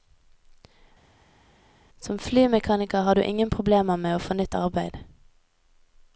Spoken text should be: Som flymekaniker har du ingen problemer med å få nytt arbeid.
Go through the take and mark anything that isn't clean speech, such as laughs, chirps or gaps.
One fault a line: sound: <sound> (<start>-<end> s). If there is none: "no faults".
no faults